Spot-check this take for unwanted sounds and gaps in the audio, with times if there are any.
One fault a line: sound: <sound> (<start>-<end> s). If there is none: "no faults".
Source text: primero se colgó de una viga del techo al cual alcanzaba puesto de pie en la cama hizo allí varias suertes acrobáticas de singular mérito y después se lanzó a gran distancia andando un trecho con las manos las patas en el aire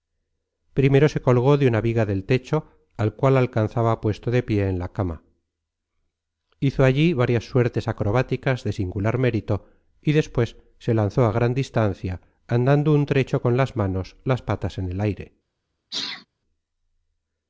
sound: sneeze (15.9-16.3 s)